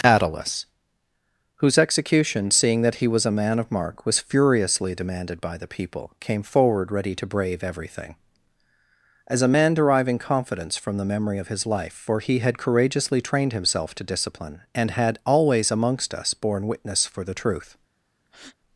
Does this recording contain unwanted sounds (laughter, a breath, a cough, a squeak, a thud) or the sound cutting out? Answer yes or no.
yes